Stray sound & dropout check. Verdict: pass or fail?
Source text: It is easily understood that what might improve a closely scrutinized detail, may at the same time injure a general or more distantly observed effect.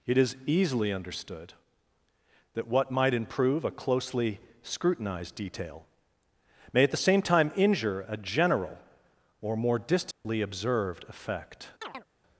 fail